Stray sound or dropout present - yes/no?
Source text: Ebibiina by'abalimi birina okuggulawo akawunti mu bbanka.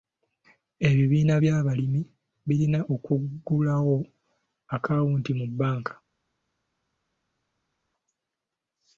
no